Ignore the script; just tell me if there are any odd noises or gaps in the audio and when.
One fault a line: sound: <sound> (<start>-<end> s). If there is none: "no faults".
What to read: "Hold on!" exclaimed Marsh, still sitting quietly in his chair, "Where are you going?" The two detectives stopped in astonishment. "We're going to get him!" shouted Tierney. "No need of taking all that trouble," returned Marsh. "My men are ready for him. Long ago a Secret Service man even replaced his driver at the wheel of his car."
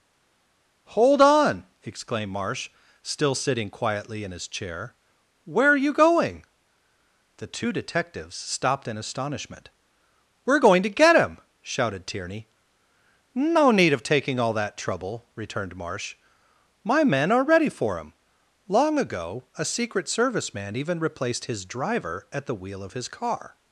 no faults